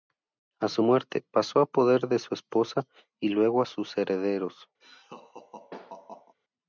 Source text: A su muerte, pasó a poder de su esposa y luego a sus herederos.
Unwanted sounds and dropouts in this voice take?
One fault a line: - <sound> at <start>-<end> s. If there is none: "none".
- laugh at 4.8-6.3 s